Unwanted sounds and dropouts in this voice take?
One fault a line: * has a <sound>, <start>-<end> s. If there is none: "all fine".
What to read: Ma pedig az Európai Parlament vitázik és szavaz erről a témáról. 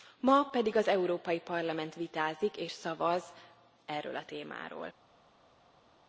all fine